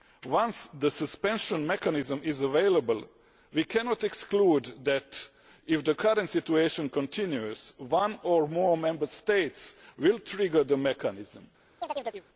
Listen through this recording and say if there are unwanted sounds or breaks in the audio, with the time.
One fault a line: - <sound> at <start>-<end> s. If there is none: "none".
- chirp at 11.8-12.3 s